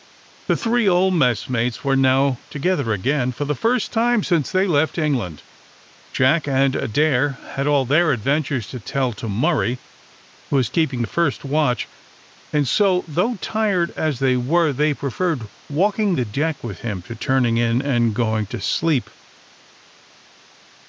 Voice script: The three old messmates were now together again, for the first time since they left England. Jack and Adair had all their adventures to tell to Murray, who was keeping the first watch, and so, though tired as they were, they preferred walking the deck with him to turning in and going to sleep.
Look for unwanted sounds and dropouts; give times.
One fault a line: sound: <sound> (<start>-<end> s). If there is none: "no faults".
no faults